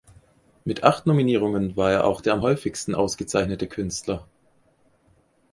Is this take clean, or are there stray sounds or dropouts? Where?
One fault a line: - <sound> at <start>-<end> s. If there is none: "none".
none